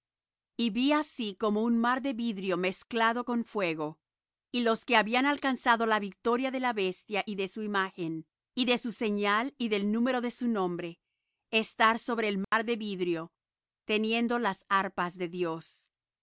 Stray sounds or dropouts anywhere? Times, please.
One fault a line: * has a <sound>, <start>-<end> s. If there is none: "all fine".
* has a dropout, 12.4-12.5 s